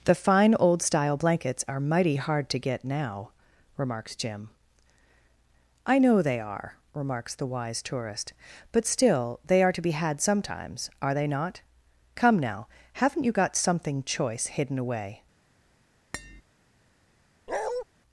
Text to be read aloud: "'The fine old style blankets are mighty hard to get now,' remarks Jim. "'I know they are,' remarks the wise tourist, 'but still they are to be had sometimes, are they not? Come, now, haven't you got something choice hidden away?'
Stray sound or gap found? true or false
true